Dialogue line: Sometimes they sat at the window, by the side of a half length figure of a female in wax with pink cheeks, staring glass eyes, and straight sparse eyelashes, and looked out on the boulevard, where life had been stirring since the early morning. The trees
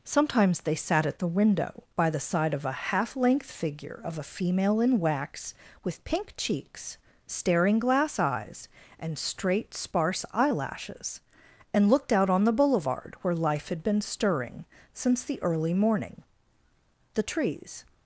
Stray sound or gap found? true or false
false